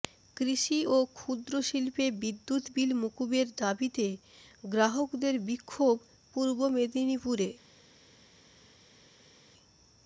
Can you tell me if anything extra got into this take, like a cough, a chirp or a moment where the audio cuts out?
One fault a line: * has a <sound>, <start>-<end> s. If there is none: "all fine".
all fine